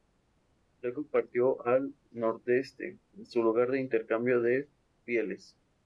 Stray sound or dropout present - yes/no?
no